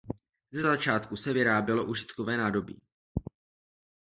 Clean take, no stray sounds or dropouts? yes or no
yes